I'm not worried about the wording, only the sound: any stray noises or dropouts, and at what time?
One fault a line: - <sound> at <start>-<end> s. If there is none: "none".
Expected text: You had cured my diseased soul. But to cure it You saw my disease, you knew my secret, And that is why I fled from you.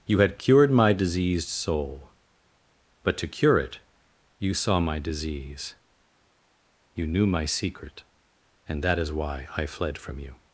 none